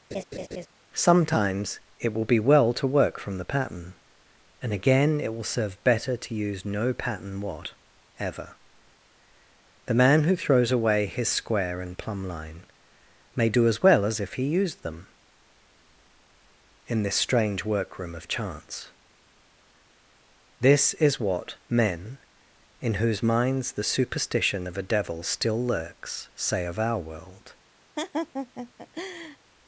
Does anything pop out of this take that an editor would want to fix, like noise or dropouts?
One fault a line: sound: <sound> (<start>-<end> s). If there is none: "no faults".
sound: laugh (0.1-0.7 s)
sound: laugh (28.0-29.4 s)